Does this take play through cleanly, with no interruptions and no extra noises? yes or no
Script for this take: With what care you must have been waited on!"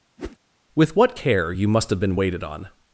no